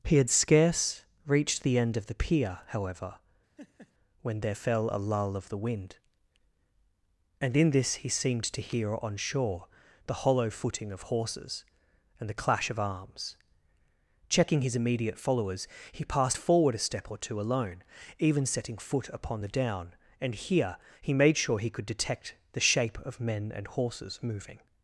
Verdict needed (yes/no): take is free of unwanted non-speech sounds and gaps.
no